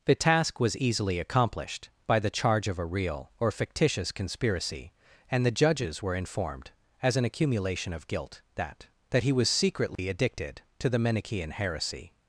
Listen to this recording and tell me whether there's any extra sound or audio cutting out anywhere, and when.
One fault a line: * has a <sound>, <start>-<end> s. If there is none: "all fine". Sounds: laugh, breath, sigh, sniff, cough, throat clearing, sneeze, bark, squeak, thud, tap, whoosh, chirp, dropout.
* has a dropout, 10.0-10.0 s